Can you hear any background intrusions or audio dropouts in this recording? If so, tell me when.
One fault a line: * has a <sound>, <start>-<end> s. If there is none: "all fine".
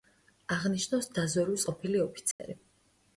* has a dropout, 2.3-2.4 s